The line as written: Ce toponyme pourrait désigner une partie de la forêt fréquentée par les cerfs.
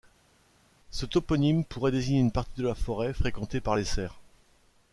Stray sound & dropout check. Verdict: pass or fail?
pass